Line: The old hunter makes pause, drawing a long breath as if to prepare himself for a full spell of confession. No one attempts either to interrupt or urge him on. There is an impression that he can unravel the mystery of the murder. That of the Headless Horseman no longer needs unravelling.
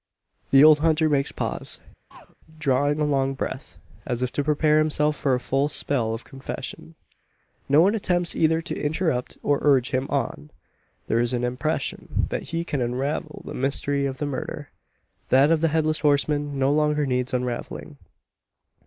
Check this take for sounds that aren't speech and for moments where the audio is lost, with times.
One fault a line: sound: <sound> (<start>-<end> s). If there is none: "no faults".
sound: throat clearing (2.1-2.4 s)